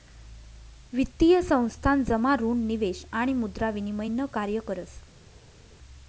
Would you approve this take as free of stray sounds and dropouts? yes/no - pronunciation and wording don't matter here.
yes